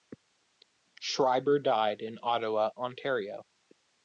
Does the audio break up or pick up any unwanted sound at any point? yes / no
no